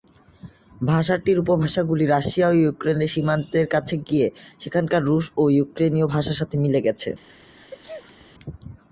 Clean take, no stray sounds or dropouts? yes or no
no